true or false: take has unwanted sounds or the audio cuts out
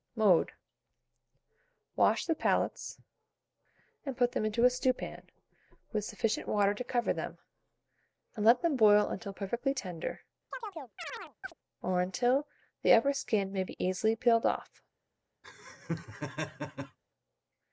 true